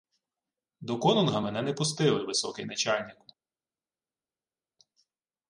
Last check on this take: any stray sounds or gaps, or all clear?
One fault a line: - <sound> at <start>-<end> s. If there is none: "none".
none